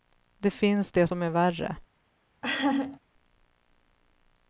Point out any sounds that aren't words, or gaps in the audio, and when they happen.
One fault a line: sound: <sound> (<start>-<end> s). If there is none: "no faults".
sound: laugh (2.4-3.0 s)